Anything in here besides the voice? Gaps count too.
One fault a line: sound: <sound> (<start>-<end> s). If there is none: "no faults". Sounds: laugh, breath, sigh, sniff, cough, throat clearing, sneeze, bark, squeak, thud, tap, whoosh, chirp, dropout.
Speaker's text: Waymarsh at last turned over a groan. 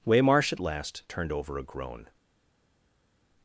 no faults